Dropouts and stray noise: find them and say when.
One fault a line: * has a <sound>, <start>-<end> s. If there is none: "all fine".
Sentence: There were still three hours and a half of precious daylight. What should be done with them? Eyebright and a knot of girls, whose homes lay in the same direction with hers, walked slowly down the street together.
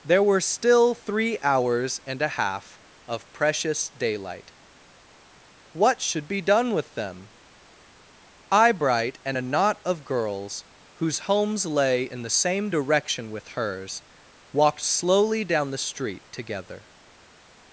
all fine